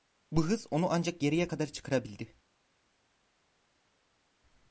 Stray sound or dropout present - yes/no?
no